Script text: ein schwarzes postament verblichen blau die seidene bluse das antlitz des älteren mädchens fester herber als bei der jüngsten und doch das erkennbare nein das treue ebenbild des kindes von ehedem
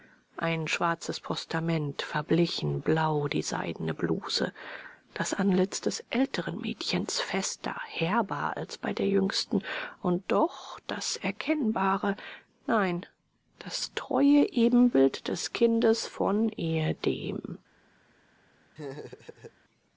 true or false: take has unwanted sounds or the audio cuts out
true